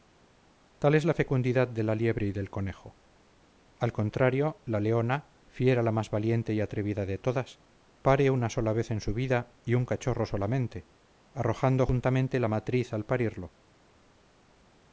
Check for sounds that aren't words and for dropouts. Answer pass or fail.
pass